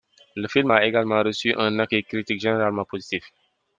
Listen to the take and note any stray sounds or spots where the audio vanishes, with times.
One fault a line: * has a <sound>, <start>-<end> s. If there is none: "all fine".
all fine